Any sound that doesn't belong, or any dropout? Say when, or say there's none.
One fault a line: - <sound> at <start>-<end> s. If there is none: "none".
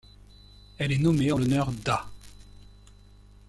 none